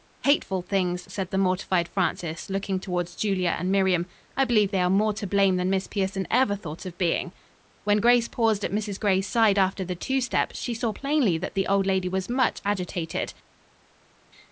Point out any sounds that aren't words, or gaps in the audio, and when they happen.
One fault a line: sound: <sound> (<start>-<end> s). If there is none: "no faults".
no faults